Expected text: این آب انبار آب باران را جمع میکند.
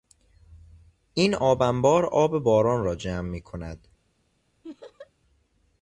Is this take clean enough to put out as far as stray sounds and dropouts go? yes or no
no